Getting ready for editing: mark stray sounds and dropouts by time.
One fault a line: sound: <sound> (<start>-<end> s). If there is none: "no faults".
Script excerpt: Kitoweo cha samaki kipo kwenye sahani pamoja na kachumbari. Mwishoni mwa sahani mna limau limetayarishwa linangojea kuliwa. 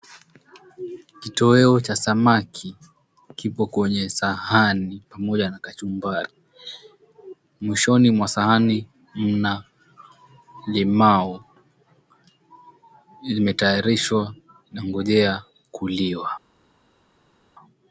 no faults